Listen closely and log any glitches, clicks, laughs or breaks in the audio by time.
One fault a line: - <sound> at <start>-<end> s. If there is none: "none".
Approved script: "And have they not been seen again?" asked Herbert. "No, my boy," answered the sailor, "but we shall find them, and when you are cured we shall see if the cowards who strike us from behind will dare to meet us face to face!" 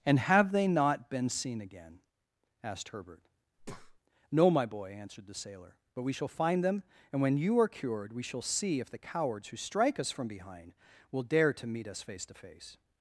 - breath at 3.6-4.0 s